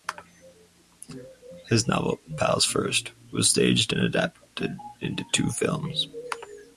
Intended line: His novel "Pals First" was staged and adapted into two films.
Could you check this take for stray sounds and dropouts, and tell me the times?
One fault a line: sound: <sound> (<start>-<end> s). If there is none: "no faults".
no faults